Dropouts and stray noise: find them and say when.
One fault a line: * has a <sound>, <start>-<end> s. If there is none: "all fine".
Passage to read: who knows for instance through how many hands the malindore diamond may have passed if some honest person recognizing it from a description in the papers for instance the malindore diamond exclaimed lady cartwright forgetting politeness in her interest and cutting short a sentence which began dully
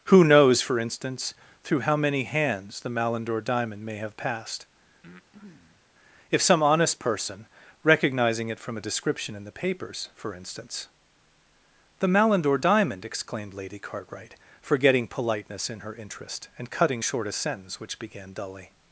* has a breath, 5.0-5.9 s